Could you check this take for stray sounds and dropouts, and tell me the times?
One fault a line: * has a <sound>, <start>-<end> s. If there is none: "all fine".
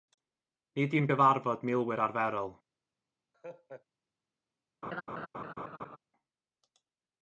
* has a laugh, 3.3-3.9 s
* has a laugh, 4.8-6.0 s